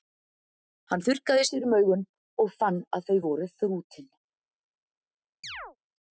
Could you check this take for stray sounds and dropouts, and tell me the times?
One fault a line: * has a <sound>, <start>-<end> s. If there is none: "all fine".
* has a chirp, 5.4-5.8 s